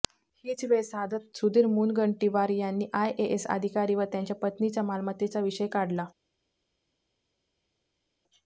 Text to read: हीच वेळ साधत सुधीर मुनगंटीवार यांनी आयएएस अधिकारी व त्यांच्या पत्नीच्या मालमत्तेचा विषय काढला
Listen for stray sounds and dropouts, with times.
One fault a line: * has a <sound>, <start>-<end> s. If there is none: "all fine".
all fine